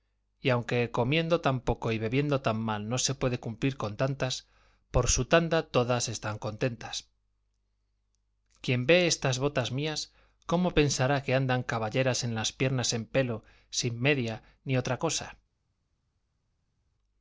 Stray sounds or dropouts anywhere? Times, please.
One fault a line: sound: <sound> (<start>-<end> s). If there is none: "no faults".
no faults